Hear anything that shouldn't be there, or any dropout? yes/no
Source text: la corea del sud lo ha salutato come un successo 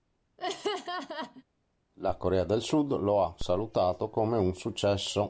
yes